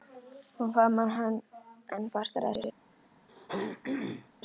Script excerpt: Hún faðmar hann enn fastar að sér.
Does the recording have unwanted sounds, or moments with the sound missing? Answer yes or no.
yes